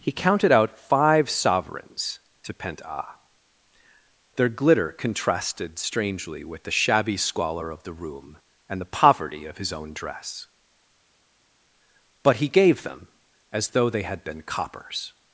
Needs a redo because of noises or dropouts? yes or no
no